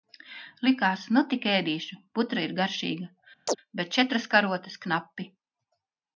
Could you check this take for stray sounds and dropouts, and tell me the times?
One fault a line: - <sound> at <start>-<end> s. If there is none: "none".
- chirp at 3.5-3.6 s